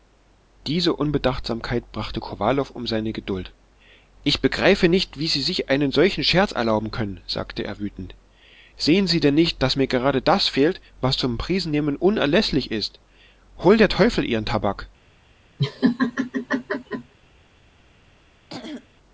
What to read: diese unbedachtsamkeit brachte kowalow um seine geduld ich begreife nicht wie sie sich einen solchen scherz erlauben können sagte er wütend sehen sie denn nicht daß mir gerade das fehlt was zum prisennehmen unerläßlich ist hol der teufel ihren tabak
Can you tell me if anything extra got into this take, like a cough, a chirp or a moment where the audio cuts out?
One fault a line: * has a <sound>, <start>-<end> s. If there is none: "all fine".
* has a laugh, 15.6-17.1 s
* has a throat clearing, 18.5-18.9 s